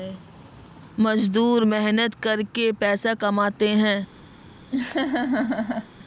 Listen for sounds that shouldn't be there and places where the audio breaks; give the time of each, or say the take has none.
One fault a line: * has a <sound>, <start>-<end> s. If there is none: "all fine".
* has a laugh, 4.7-5.9 s